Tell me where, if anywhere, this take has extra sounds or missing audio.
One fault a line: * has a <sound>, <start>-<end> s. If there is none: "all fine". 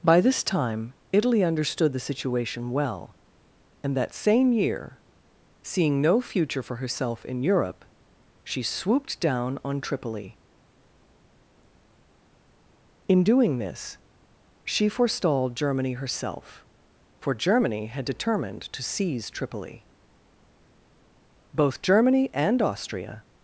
all fine